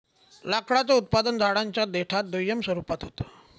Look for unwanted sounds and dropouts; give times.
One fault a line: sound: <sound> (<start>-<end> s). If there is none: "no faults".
no faults